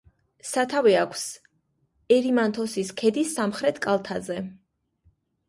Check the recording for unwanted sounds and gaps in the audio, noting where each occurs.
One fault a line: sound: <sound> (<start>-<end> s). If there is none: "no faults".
no faults